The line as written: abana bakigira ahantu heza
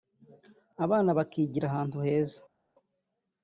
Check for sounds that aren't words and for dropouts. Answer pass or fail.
pass